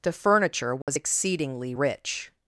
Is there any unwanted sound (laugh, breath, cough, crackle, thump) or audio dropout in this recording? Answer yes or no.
yes